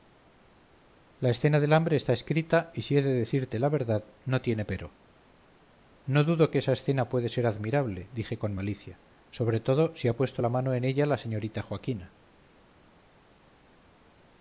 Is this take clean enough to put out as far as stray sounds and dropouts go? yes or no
yes